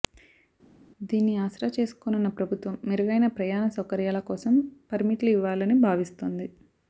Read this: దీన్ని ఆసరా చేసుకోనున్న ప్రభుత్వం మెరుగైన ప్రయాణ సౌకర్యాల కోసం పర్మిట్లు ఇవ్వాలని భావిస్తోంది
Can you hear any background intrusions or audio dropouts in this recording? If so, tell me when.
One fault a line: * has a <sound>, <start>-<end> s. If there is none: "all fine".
all fine